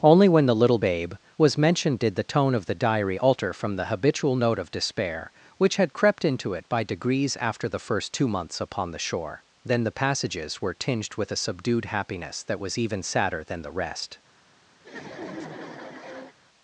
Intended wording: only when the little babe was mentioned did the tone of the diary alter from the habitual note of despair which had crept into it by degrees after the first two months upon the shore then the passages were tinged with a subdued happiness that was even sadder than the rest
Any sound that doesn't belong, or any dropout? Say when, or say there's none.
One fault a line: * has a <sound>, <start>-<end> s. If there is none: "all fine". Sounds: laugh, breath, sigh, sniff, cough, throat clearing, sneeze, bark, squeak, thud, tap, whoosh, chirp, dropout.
* has a laugh, 14.8-16.3 s